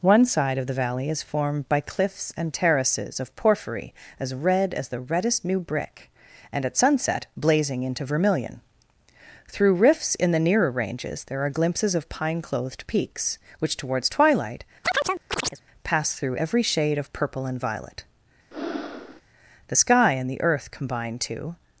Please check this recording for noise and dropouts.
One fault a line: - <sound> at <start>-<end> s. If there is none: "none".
- chirp at 14.8-15.6 s
- breath at 18.5-19.2 s